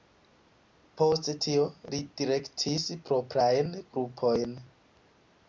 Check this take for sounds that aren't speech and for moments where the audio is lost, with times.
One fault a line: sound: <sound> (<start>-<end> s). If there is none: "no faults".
no faults